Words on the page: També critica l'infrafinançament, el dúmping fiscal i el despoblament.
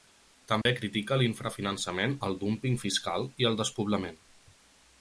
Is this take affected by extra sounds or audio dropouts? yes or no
yes